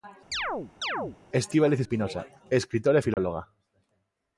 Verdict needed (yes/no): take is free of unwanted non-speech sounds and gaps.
no